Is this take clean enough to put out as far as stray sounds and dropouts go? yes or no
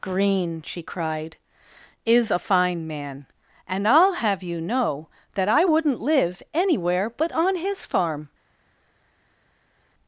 yes